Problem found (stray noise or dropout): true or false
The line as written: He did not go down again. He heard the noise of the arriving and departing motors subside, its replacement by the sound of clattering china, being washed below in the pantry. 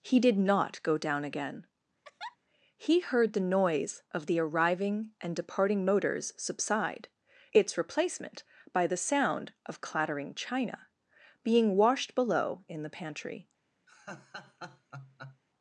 true